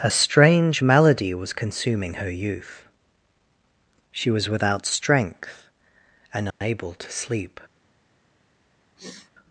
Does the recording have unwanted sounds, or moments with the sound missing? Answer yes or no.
yes